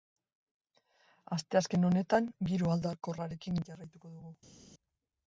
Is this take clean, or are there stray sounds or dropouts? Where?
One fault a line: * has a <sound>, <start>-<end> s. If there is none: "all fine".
all fine